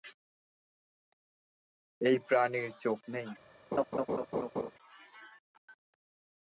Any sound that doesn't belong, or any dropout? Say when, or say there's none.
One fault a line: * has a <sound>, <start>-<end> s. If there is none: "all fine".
* has a laugh, 3.7-4.7 s